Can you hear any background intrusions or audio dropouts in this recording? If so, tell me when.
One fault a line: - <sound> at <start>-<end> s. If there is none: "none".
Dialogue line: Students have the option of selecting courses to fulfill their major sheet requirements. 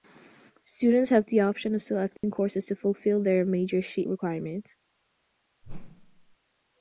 - dropout at 2.2-2.2 s
- whoosh at 5.6-6.4 s